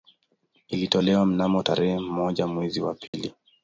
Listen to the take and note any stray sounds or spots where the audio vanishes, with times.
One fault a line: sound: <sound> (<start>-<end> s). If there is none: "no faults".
sound: dropout (3.1-3.1 s)